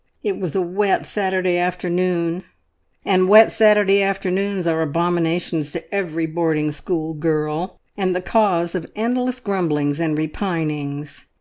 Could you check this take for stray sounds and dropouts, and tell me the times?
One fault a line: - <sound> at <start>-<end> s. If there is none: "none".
none